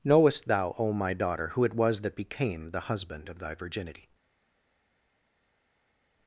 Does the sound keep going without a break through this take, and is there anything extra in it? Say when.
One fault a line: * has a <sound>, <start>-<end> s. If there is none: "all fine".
all fine